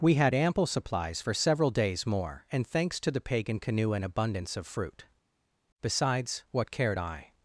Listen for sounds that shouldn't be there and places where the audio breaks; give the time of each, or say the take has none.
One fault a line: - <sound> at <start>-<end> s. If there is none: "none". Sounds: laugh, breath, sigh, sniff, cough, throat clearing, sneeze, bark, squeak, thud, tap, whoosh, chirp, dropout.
none